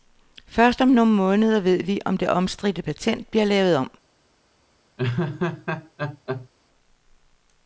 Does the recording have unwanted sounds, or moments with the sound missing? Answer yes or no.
yes